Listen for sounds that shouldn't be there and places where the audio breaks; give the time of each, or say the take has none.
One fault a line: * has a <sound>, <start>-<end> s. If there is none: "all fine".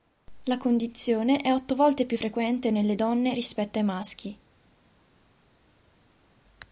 all fine